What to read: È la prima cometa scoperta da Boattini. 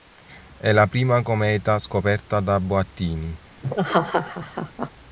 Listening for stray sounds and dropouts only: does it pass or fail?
fail